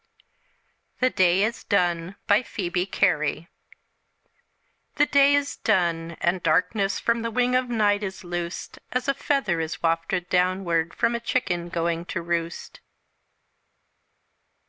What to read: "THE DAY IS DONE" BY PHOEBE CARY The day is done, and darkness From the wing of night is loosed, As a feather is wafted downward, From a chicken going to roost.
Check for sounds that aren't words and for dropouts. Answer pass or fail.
pass